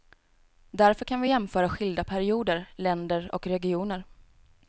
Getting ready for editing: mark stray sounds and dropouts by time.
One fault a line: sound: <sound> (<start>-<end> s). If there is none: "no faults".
no faults